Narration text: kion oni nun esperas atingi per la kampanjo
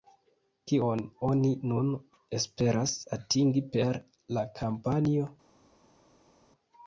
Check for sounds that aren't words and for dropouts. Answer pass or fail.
pass